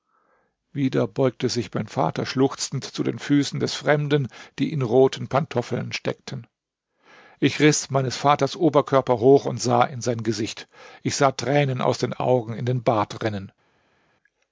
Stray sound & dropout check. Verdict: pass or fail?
pass